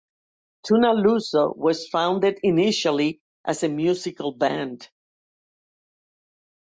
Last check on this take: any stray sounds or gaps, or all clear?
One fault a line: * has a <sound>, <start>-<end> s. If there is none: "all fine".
all fine